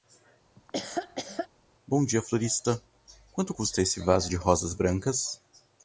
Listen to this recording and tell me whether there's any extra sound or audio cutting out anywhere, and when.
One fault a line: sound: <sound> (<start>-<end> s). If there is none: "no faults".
sound: laugh (0.6-1.5 s)